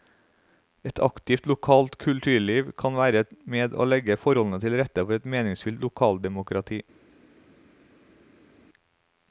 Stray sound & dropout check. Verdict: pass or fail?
pass